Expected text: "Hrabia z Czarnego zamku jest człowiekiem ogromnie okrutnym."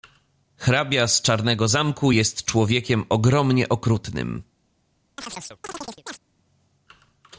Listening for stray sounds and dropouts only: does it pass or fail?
fail